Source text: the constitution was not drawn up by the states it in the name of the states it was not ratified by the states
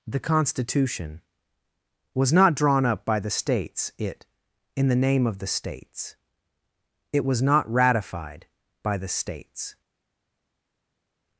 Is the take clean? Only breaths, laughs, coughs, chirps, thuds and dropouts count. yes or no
yes